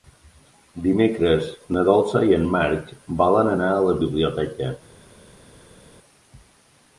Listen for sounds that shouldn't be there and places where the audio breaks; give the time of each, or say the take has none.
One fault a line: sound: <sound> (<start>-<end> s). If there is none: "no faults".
no faults